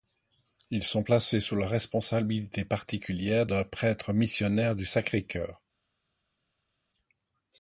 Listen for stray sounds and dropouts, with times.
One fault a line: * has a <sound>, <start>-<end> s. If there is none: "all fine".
all fine